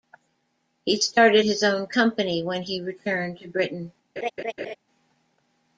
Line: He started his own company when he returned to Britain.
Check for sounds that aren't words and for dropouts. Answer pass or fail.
fail